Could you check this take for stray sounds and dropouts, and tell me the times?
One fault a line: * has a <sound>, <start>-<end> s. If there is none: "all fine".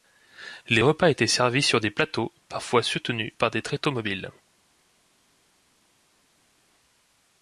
all fine